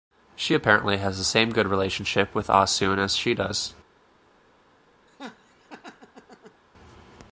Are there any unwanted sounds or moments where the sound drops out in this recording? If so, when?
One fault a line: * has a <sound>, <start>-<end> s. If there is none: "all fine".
* has a laugh, 5.1-6.6 s